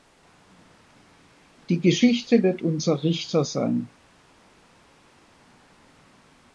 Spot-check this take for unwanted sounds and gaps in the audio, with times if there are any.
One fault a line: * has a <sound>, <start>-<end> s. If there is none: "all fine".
all fine